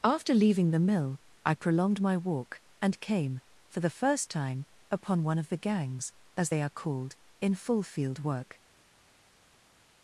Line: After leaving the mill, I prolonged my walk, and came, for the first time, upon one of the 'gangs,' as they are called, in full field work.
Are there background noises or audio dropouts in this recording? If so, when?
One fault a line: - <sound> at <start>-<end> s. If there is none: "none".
none